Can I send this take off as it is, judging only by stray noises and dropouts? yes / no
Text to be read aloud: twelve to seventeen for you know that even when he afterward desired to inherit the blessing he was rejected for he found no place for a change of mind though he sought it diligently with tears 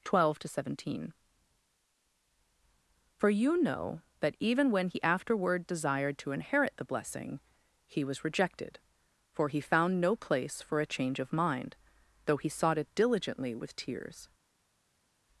yes